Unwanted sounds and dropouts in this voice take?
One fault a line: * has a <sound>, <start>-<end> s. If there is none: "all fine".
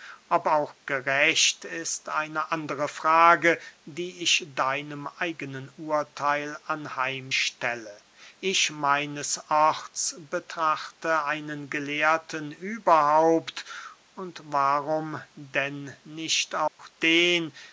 * has a dropout, 16.7-16.8 s